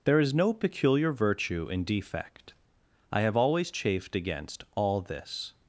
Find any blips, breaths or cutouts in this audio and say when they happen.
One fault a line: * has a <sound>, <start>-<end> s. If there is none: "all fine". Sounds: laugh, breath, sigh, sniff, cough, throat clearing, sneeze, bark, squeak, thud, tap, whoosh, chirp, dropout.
all fine